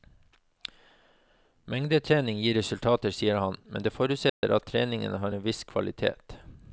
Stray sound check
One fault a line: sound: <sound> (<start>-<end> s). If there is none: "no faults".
sound: dropout (4.3-4.4 s)